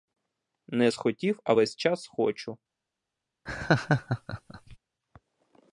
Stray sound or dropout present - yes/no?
yes